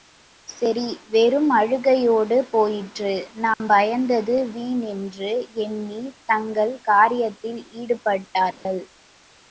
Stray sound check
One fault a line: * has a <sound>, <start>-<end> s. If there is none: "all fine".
* has a dropout, 3.5-3.6 s
* has a dropout, 8.5-8.7 s